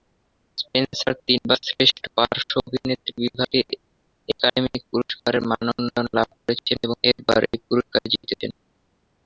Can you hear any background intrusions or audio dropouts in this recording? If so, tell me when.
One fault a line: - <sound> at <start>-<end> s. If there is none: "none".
none